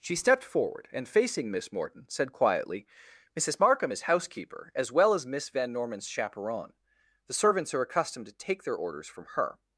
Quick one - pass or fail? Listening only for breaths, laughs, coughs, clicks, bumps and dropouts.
pass